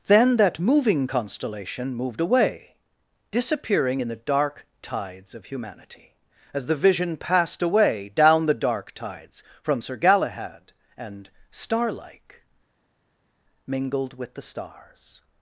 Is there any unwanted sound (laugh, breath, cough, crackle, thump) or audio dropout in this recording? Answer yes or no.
no